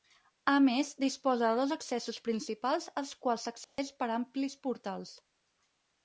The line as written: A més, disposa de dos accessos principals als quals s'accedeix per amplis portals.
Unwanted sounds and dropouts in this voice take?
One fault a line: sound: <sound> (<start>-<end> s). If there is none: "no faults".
sound: dropout (3.6-3.8 s)